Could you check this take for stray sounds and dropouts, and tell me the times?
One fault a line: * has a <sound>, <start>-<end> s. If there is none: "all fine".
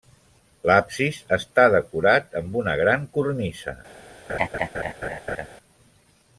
* has a laugh, 4.3-5.5 s